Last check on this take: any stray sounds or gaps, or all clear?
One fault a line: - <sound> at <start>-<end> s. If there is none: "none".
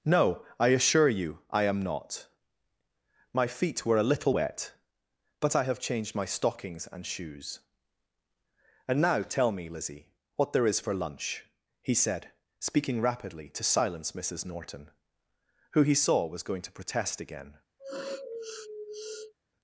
- sniff at 17.8-19.3 s